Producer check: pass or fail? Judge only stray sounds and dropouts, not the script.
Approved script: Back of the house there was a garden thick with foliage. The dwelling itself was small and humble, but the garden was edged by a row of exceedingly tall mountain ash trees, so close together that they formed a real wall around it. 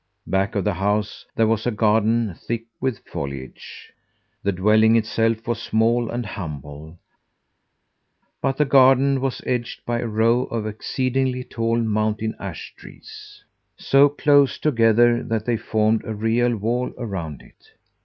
pass